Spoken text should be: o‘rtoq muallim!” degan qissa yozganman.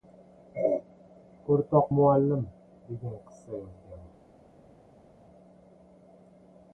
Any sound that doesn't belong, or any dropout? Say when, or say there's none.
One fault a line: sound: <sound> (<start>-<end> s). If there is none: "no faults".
no faults